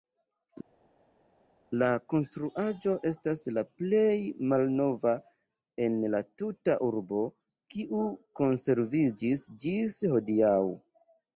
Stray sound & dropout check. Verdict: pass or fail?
pass